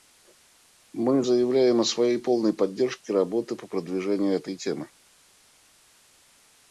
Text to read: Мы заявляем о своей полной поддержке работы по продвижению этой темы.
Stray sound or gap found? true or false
false